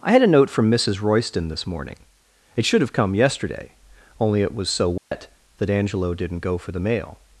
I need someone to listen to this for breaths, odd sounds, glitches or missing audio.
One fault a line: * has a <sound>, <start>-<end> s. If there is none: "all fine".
* has a dropout, 5.0-5.1 s